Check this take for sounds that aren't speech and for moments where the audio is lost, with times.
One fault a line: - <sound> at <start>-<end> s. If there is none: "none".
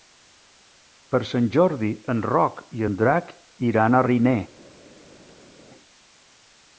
none